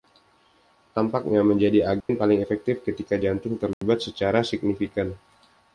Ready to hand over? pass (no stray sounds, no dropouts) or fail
fail